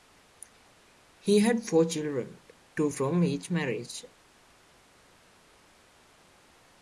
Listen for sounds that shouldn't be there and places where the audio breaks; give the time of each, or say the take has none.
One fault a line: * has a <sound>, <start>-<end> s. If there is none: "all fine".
all fine